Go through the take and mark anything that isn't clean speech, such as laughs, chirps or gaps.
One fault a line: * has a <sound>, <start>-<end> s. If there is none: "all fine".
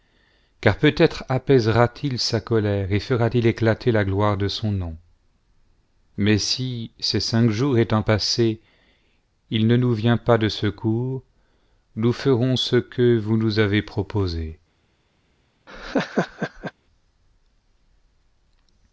* has a laugh, 15.7-16.7 s